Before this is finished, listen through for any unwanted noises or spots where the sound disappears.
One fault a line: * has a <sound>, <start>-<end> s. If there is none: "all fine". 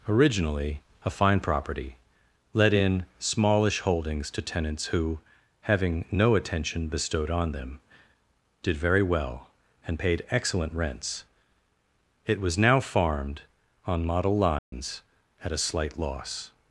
* has a dropout, 14.6-14.7 s